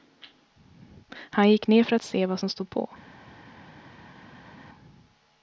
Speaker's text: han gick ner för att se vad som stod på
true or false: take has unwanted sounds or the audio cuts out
false